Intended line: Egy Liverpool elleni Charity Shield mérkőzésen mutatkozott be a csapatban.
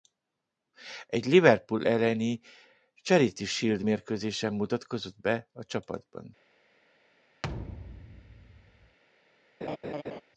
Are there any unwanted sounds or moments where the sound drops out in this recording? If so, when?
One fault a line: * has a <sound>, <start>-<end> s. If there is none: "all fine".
* has a thud, 7.4-9.0 s
* has a laugh, 9.6-10.2 s